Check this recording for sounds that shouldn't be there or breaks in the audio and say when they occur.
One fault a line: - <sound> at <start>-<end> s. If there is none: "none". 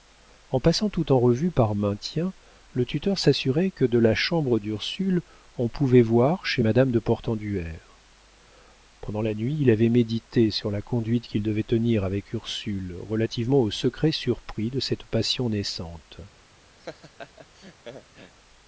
- laugh at 16.8-18.3 s